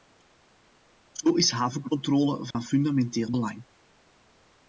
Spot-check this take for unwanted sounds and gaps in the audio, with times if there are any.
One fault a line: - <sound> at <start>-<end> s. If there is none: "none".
- dropout at 2.5-2.5 s